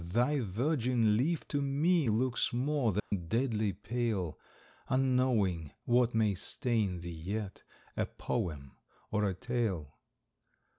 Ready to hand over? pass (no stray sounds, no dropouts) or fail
fail